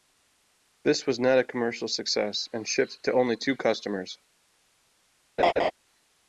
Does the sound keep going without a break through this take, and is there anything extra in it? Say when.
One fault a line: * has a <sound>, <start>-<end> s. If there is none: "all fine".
* has a laugh, 5.4-5.7 s